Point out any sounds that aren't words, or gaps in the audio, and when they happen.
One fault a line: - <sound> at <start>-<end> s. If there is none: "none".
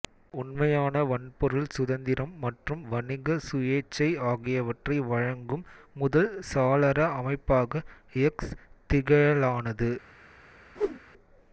- whoosh at 10.8-11.0 s